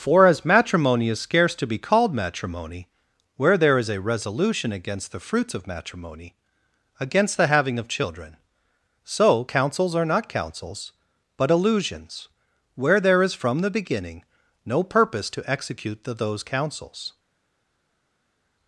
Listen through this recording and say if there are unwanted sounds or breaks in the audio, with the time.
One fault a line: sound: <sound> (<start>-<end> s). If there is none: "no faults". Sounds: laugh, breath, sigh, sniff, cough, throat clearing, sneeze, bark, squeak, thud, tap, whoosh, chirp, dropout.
no faults